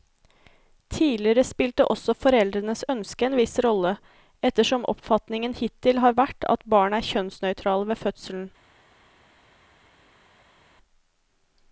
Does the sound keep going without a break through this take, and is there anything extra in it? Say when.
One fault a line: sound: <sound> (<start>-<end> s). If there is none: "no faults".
no faults